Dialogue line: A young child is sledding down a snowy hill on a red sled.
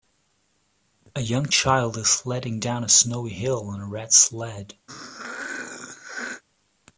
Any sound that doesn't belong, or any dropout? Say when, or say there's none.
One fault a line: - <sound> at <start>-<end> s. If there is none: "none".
- throat clearing at 4.9-6.4 s